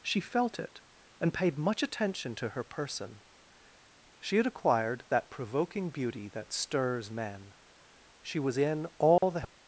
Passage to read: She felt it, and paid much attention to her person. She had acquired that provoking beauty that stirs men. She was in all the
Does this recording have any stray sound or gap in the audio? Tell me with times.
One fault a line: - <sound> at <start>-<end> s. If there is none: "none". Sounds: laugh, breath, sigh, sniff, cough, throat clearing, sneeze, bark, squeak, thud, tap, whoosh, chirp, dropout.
- dropout at 9.2-9.2 s